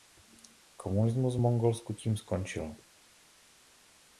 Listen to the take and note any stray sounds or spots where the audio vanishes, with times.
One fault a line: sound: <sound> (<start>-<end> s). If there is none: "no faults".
no faults